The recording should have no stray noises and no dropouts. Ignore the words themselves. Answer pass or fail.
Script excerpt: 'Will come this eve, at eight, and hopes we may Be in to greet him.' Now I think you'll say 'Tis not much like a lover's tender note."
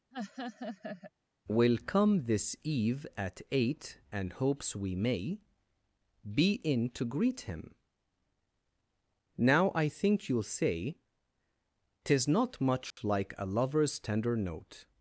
fail